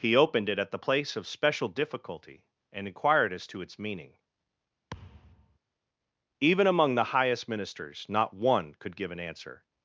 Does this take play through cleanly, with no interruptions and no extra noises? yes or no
no